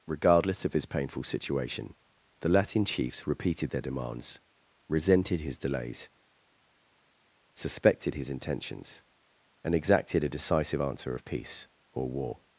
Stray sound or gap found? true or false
false